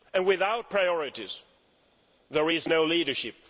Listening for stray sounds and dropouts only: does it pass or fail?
pass